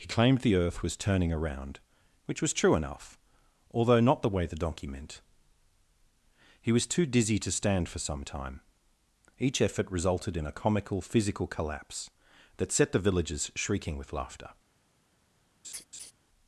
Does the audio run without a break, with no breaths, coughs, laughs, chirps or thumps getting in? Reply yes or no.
no